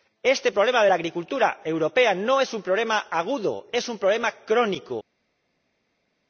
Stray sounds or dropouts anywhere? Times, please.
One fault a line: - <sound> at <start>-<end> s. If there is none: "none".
none